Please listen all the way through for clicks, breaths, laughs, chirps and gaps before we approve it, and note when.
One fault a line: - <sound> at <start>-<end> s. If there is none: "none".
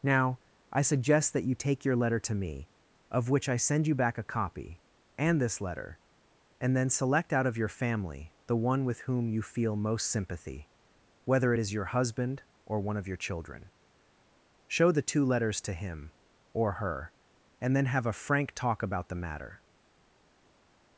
none